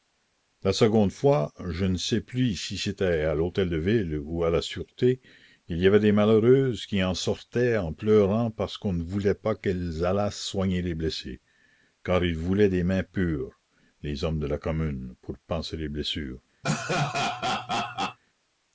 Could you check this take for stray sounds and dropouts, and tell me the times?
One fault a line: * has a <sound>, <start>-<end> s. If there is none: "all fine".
* has a laugh, 16.6-18.2 s